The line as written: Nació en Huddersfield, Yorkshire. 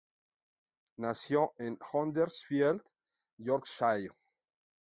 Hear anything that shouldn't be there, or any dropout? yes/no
no